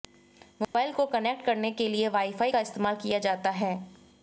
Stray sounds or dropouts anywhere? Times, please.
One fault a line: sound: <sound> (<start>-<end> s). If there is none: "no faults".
sound: dropout (0.6-0.7 s)